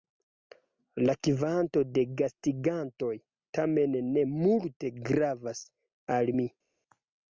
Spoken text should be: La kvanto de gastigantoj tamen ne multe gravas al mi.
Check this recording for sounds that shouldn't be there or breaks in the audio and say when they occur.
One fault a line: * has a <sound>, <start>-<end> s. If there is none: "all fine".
all fine